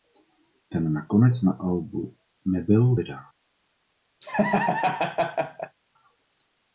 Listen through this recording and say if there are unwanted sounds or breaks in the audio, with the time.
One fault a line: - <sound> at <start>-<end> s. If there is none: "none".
- laugh at 4.2-5.8 s